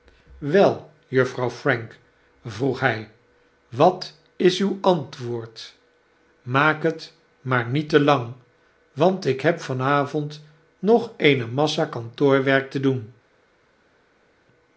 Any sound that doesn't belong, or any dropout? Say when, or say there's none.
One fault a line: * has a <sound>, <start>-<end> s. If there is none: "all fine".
all fine